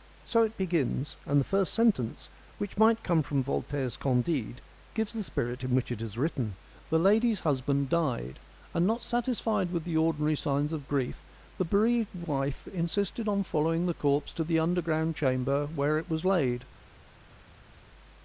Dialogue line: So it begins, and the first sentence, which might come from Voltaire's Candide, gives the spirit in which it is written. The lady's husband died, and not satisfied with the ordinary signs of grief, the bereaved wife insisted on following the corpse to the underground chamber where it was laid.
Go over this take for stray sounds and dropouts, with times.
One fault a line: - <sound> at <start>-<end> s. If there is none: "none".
none